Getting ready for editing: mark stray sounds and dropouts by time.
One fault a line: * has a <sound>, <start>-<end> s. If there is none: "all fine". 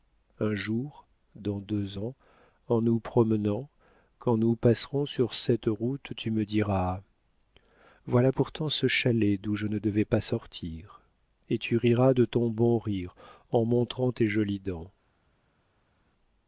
all fine